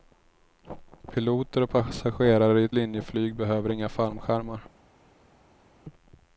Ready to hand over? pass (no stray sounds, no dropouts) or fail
pass